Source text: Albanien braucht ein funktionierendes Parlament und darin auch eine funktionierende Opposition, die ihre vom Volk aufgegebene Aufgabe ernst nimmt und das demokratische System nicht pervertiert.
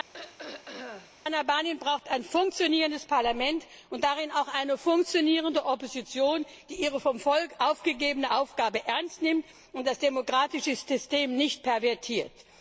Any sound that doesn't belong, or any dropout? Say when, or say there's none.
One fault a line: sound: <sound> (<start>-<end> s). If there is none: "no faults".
sound: throat clearing (0.1-1.1 s)